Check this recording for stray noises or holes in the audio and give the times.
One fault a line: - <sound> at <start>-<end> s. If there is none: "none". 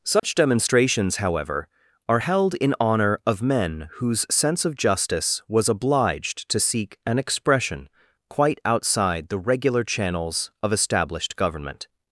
- dropout at 0.2-0.2 s